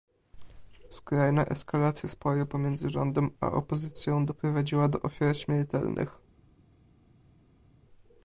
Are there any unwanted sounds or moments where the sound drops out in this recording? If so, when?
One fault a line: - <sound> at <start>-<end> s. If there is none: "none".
none